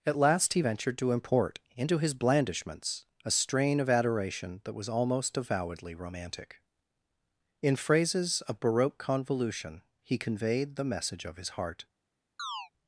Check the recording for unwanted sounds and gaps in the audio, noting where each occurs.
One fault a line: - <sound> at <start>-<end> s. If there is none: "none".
- chirp at 12.4-12.7 s